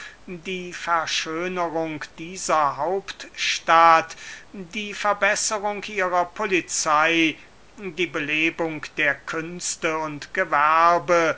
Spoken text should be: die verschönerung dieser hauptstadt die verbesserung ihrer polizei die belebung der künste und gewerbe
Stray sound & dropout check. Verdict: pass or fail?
pass